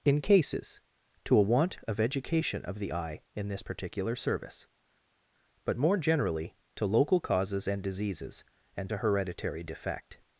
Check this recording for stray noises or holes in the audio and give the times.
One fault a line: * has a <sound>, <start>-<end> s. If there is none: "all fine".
all fine